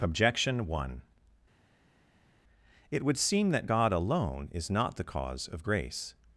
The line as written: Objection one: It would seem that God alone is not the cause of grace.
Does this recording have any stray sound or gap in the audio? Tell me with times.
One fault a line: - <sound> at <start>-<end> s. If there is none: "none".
none